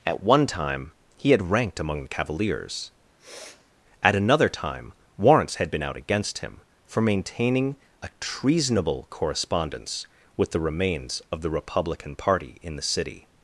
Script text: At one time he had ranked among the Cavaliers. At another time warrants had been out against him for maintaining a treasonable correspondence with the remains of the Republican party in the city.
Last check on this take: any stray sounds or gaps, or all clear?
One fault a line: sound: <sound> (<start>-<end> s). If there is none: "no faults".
sound: sniff (3.2-3.7 s)